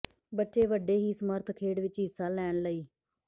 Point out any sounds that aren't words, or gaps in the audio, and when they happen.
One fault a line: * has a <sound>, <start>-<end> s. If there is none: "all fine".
all fine